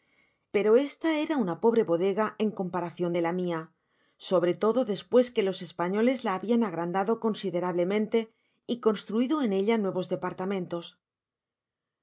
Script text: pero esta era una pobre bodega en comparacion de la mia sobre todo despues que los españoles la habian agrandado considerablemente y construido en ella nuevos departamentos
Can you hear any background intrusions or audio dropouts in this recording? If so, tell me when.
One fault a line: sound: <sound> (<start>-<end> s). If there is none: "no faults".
no faults